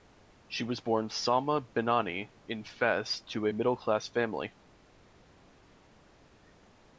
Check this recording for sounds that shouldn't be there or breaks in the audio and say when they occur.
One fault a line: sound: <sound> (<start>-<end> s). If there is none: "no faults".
no faults